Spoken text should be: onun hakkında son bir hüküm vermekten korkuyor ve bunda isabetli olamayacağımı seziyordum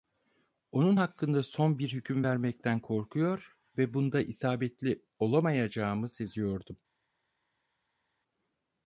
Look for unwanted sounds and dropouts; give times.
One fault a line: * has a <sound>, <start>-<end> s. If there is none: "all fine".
all fine